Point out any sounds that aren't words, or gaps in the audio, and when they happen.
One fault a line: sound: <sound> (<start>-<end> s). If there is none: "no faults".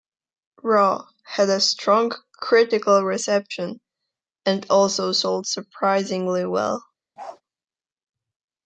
sound: bark (7.2-7.4 s)